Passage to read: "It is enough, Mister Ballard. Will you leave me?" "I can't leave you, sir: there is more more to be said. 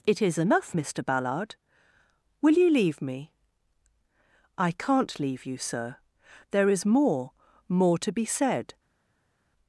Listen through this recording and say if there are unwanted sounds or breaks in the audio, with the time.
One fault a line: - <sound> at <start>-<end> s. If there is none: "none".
none